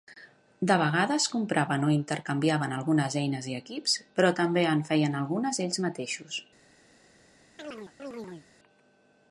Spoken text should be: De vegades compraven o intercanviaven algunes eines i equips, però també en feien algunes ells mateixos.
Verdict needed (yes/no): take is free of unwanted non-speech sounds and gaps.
no